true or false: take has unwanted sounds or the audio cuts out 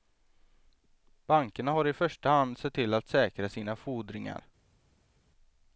false